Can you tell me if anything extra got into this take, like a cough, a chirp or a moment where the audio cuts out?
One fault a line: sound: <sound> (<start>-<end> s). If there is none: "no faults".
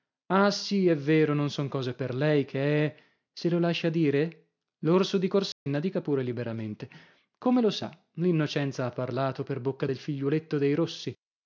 sound: dropout (5.5-5.7 s)